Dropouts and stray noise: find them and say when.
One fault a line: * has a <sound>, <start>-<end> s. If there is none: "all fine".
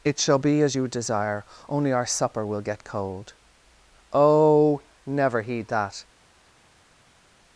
all fine